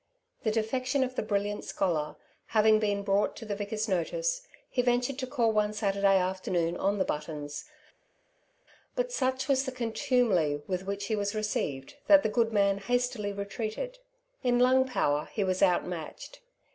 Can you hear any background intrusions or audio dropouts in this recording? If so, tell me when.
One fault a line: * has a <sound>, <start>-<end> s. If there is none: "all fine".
all fine